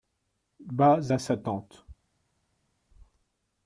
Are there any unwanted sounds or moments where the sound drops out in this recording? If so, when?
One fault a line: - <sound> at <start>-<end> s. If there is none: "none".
none